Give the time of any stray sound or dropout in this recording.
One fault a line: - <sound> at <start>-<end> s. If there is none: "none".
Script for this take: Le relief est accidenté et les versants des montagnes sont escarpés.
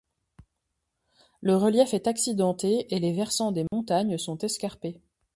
- dropout at 3.7-3.7 s